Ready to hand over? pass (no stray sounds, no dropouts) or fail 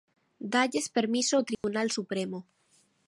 fail